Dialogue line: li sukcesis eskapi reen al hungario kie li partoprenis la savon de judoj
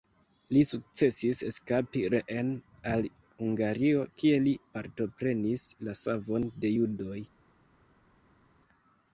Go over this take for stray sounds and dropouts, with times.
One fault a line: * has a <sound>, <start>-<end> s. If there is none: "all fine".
all fine